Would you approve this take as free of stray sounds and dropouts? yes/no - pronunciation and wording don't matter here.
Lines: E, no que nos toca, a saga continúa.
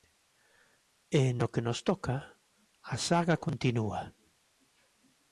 yes